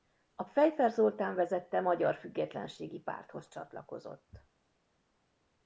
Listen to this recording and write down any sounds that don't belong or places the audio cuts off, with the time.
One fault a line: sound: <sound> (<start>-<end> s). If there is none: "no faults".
no faults